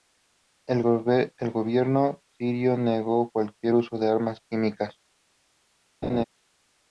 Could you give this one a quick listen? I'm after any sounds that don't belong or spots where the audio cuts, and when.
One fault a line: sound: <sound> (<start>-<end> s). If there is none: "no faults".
sound: laugh (6.0-6.2 s)